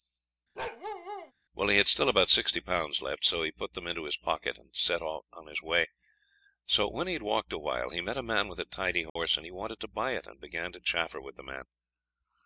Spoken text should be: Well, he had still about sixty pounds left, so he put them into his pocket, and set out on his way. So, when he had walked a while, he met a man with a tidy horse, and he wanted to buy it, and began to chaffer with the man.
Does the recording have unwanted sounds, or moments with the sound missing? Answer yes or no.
yes